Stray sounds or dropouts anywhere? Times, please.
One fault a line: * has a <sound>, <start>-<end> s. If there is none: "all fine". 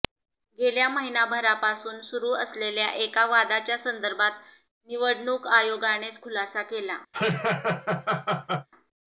* has a laugh, 7.1-8.7 s